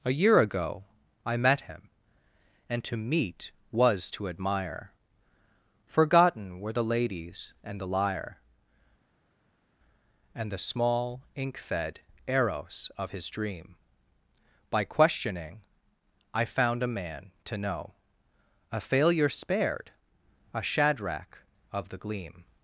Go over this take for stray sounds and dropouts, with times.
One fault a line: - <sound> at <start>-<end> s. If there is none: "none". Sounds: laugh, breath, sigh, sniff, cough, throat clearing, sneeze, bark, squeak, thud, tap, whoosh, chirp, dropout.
none